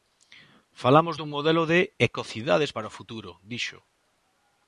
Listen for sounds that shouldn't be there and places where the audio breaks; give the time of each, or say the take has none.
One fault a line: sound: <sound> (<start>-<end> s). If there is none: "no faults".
no faults